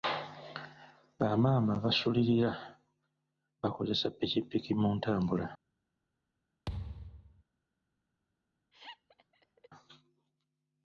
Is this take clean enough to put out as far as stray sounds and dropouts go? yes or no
no